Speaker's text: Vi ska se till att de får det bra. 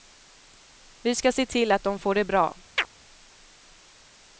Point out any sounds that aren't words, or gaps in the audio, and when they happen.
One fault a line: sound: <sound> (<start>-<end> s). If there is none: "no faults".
sound: chirp (2.8-2.9 s)